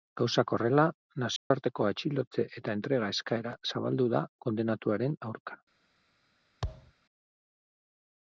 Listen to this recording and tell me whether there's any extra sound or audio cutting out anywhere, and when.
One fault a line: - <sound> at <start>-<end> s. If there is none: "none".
- dropout at 1.4-1.5 s
- thud at 6.6-6.9 s